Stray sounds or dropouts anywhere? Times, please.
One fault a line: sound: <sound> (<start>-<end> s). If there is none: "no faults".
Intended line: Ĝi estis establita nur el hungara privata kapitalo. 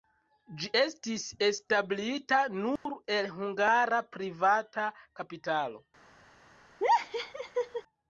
sound: dropout (2.8-2.9 s)
sound: laugh (6.8-7.8 s)